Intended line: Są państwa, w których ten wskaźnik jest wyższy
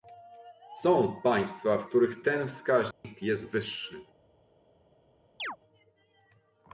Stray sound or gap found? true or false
true